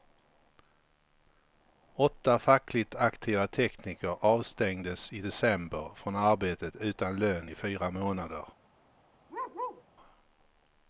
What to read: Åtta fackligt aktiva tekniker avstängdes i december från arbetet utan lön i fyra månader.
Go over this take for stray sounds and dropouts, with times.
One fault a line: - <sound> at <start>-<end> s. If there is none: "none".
- bark at 9.3-9.8 s